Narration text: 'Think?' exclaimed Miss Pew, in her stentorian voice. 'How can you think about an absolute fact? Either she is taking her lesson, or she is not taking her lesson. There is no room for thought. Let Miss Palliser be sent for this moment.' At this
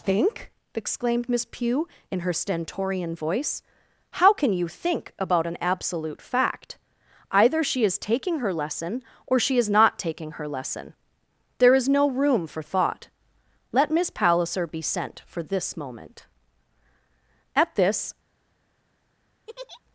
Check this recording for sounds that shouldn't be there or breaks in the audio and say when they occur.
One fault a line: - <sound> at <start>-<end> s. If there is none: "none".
- laugh at 19.5-19.8 s